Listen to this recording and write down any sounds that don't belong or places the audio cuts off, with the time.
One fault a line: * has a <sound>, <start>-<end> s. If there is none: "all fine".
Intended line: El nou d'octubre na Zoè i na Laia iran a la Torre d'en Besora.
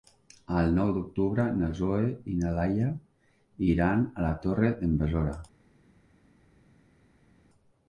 all fine